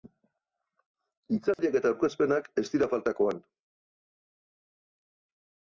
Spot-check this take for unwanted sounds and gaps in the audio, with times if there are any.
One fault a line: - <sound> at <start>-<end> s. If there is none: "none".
- dropout at 1.5-1.6 s